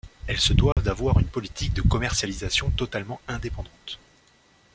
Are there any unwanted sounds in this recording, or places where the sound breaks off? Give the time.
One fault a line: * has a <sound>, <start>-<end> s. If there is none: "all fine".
* has a dropout, 0.7-0.8 s